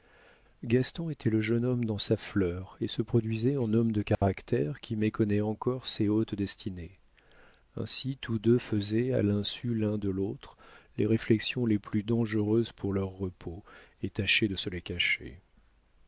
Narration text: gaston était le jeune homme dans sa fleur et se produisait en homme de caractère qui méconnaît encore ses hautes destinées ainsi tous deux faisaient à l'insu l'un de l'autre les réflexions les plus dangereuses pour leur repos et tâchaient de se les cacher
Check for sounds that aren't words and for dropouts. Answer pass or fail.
fail